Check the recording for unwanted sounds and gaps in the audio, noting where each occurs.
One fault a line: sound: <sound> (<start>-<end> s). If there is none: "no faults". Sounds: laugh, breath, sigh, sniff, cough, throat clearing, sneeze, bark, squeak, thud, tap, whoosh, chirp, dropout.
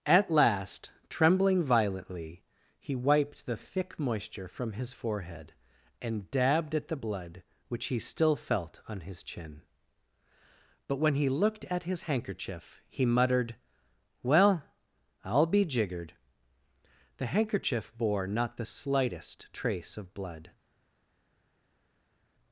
no faults